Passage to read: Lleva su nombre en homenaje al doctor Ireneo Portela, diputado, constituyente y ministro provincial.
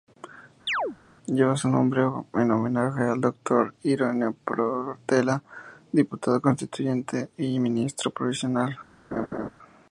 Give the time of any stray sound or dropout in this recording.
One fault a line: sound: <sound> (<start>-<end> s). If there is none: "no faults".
sound: chirp (0.7-1.0 s)
sound: laugh (9.1-9.5 s)